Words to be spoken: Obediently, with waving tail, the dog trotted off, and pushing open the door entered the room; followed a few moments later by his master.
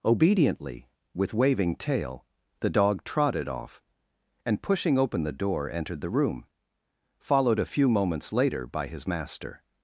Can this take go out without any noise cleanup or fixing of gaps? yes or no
yes